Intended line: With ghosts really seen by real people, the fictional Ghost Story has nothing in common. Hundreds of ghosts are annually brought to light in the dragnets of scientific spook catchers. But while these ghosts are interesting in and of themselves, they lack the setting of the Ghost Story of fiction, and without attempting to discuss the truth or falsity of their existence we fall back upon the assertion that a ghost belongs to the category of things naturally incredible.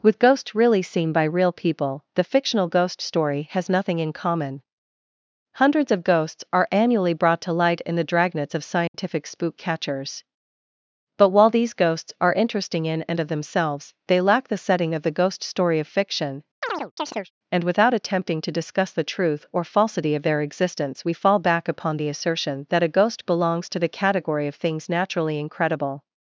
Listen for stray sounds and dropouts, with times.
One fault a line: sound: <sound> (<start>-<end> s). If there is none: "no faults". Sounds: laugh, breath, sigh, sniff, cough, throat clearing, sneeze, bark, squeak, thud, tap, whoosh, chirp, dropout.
sound: dropout (8.9-8.9 s)
sound: chirp (16.6-17.3 s)